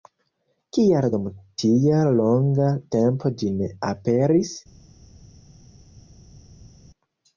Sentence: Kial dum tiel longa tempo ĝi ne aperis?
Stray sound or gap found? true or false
false